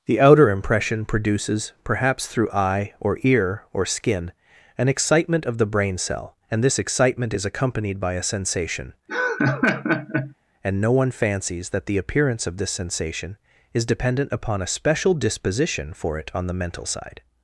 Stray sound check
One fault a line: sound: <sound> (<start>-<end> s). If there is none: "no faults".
sound: laugh (9.1-10.3 s)